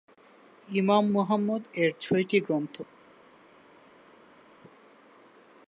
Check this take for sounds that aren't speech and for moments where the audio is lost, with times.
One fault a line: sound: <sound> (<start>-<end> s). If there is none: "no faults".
no faults